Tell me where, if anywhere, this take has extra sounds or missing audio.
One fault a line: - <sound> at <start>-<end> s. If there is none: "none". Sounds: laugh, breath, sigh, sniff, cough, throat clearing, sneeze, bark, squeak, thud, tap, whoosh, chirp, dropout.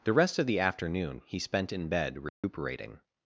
- dropout at 2.3-2.4 s